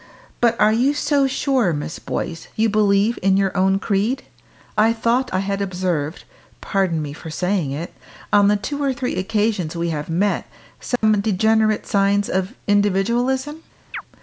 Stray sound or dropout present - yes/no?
yes